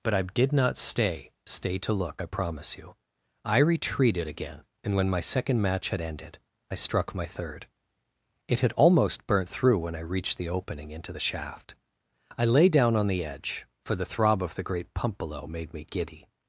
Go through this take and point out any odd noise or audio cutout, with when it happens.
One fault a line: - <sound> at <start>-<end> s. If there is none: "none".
none